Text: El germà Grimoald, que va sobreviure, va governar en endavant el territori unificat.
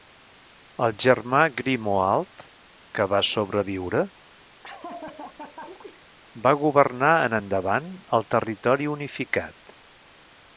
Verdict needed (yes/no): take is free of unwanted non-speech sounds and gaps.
no